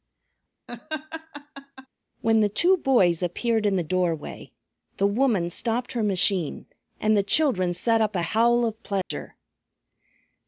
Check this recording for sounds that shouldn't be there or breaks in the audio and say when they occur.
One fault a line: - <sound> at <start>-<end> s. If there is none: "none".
- laugh at 0.7-1.9 s
- dropout at 9.0-9.1 s